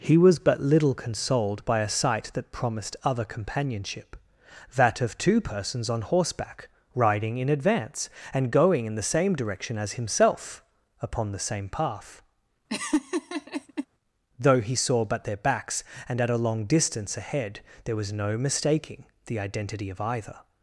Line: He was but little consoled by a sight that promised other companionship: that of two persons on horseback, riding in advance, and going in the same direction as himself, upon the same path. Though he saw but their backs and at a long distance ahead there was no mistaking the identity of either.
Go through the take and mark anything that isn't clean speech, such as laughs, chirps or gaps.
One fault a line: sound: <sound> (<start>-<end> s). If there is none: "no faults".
sound: laugh (12.7-13.9 s)